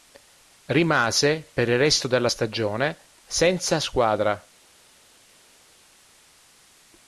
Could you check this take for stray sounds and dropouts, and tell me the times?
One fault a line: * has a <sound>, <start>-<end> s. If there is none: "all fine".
all fine